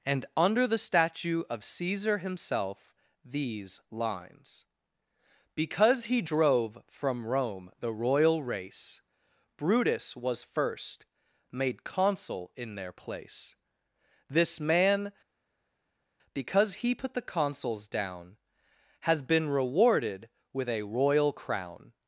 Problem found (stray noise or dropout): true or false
false